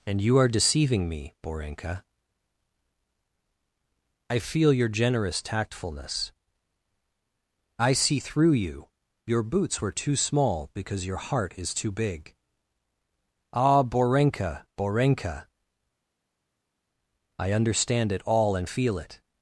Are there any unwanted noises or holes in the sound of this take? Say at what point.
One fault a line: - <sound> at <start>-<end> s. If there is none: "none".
none